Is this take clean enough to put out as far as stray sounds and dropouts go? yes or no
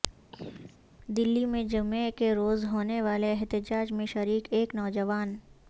no